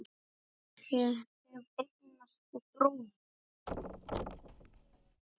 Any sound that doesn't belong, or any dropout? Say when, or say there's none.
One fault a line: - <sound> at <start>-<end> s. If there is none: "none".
- thud at 3.7-5.2 s